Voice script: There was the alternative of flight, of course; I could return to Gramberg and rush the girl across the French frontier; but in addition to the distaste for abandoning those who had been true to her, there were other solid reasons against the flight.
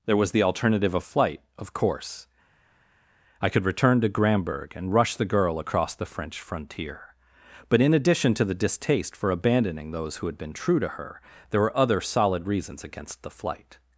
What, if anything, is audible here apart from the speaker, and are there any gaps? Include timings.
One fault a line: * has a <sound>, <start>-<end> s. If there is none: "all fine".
all fine